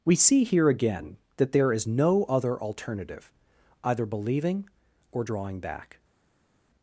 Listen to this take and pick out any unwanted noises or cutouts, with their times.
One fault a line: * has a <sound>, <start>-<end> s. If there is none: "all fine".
all fine